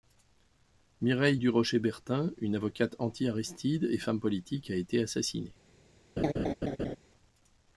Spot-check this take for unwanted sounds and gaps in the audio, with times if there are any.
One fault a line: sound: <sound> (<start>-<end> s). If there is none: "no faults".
sound: laugh (6.2-7.0 s)